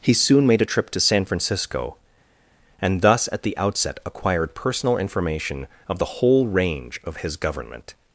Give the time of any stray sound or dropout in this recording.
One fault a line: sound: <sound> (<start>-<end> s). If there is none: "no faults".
no faults